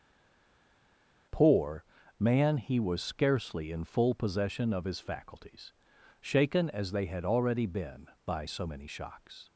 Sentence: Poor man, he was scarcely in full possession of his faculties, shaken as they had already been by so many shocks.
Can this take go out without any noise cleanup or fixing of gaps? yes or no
yes